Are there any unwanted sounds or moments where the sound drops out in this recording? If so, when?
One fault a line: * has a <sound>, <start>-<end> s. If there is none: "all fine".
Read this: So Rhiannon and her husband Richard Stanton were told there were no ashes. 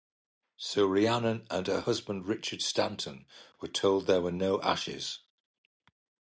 all fine